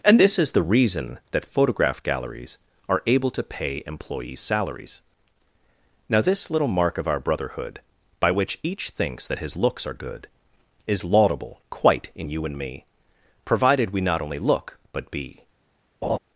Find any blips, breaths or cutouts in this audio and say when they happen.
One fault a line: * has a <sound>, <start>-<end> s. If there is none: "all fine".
* has a laugh, 16.0-16.2 s